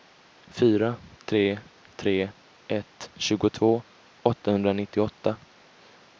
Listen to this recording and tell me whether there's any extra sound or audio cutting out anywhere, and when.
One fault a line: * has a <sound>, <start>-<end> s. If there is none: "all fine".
all fine